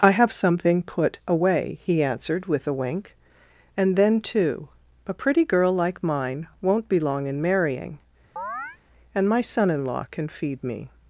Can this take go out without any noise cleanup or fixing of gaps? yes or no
no